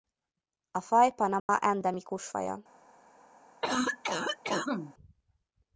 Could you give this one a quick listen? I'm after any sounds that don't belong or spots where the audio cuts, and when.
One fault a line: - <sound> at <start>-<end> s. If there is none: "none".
- dropout at 1.4-1.5 s
- cough at 3.6-4.9 s